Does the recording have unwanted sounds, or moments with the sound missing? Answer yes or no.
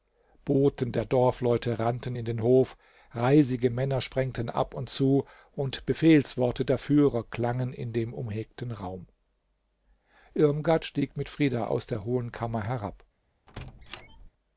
yes